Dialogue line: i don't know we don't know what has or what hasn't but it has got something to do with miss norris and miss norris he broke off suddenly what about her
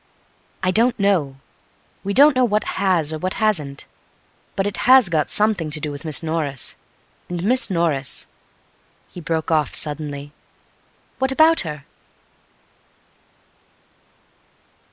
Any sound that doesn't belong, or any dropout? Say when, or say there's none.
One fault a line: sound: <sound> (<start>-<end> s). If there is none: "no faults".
no faults